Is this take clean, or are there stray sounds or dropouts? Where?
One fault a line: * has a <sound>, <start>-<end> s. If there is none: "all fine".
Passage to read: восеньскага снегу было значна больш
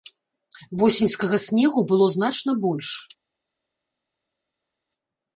all fine